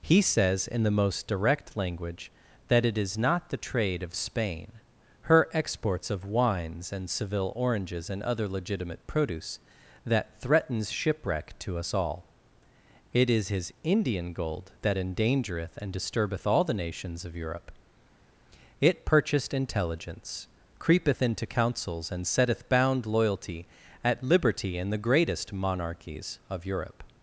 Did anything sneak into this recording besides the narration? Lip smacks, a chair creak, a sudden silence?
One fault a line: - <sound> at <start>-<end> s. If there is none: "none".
none